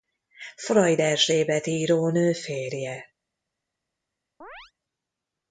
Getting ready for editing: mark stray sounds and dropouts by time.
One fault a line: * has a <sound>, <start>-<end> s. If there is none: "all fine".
* has a chirp, 4.4-4.7 s